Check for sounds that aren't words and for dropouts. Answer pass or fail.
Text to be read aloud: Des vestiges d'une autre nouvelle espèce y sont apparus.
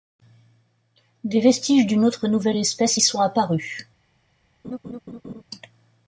fail